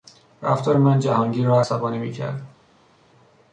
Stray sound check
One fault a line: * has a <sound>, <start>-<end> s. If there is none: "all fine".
all fine